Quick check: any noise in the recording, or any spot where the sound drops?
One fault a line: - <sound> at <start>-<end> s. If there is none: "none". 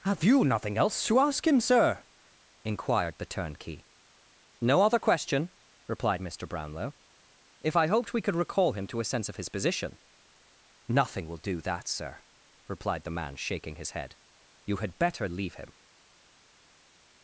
none